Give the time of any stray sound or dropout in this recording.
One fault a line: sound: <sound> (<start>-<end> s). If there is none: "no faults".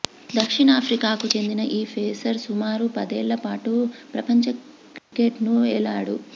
sound: dropout (5.0-5.1 s)